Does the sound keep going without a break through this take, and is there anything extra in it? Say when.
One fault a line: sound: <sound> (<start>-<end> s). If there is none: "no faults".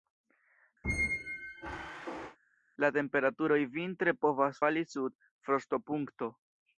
sound: squeak (0.8-2.4 s)